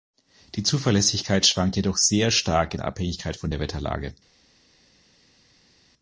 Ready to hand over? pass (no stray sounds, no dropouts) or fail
pass